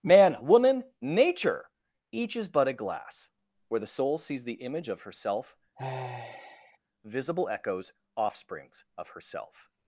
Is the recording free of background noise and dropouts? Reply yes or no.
no